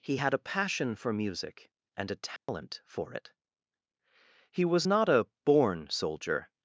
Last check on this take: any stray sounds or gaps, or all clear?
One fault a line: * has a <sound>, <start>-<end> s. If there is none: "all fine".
* has a dropout, 2.4-2.5 s